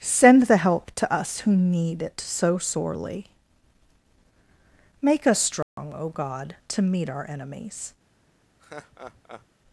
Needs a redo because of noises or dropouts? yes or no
yes